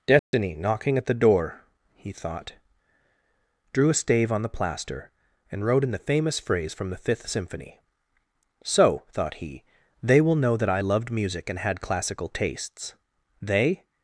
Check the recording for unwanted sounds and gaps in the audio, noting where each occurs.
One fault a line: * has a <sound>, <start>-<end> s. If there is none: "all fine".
* has a dropout, 0.2-0.3 s